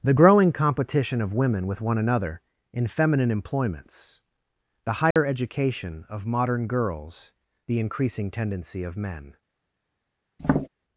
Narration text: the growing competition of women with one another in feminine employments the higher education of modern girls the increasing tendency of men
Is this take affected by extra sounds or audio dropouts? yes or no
yes